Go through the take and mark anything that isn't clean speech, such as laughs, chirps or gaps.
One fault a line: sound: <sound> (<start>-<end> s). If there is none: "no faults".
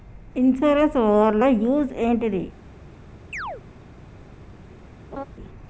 sound: chirp (3.3-3.6 s)
sound: laugh (5.1-5.2 s)